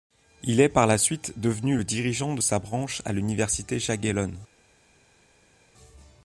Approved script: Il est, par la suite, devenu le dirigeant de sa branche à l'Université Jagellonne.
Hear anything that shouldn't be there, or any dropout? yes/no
no